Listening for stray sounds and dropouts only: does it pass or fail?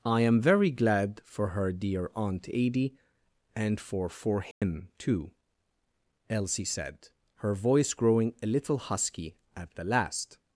fail